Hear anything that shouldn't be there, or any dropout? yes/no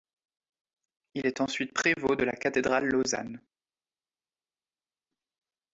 no